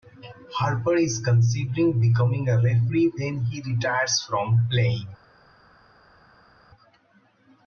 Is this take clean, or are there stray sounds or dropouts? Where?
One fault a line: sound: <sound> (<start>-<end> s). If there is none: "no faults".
no faults